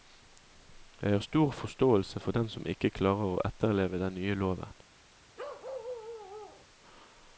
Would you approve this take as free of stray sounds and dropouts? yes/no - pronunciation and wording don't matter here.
no